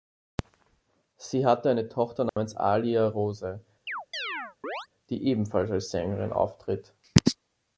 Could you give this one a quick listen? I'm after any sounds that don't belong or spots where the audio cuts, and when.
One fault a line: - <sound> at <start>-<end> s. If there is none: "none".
- dropout at 2.3-2.4 s
- chirp at 3.9-4.9 s